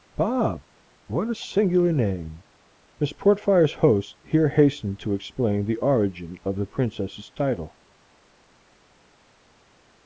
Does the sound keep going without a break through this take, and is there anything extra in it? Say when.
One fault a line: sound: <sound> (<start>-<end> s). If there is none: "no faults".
no faults